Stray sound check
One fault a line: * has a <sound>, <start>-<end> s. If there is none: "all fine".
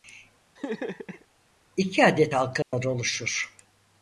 * has a laugh, 0.6-1.3 s
* has a dropout, 2.6-2.7 s